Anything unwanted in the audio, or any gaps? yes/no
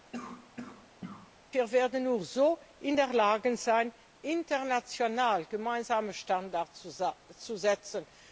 yes